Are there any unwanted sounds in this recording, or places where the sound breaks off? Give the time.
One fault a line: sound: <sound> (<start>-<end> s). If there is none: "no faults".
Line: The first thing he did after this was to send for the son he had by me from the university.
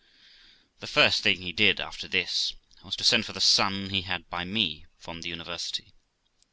no faults